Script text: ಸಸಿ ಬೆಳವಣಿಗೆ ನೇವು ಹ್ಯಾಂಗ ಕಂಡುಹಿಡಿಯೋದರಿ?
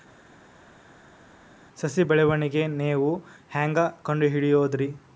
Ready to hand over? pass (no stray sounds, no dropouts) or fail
pass